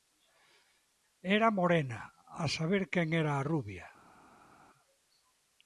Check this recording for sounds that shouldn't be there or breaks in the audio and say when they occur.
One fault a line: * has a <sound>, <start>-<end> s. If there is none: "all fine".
all fine